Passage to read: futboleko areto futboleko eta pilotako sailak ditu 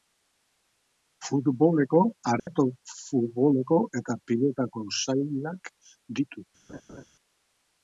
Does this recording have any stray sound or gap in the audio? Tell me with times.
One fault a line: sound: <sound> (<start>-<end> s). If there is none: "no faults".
sound: dropout (2.4-2.5 s)
sound: laugh (6.7-7.1 s)